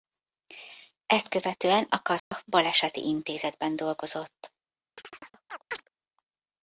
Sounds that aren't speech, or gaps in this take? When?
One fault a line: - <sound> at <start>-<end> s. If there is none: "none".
- dropout at 2.2-2.3 s
- chirp at 5.0-5.9 s